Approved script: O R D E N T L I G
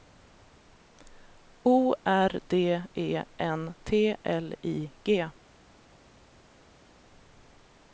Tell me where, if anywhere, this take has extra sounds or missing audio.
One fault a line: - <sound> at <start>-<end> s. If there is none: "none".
none